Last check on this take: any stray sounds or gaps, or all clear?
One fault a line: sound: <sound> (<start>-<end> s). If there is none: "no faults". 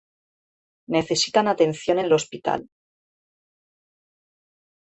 no faults